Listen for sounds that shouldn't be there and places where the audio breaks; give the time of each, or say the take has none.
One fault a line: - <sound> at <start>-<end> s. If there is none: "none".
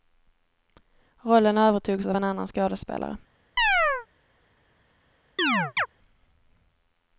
- chirp at 3.6-4.1 s
- chirp at 5.4-5.9 s